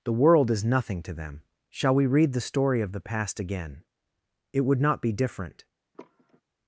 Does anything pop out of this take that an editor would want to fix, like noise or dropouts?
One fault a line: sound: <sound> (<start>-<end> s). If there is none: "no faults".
sound: sigh (5.9-6.4 s)